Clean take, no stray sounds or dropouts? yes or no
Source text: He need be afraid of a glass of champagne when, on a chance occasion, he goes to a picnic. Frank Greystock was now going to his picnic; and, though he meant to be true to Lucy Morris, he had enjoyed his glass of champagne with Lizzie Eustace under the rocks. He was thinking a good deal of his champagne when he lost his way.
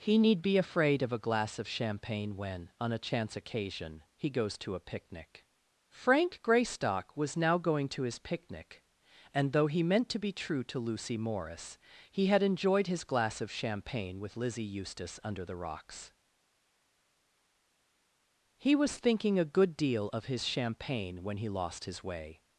yes